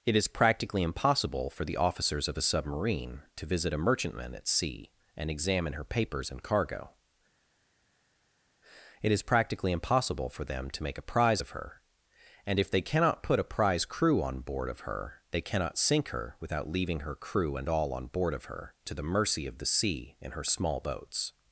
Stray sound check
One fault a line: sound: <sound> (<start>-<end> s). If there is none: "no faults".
no faults